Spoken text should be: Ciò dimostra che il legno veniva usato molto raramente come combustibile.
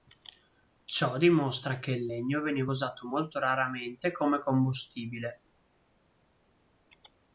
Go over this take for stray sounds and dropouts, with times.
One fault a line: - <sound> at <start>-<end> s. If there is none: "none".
none